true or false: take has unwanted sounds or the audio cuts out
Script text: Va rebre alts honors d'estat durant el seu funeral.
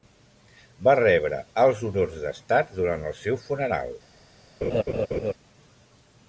true